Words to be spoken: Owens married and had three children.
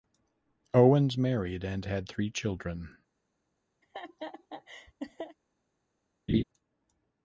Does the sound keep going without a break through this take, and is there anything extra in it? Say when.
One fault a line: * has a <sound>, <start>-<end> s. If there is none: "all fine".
* has a laugh, 3.8-5.4 s
* has a laugh, 6.3-6.4 s